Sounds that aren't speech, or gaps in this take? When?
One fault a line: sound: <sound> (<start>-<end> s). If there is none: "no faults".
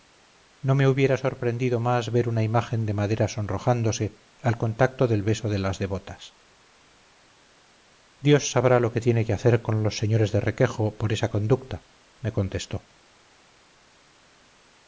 no faults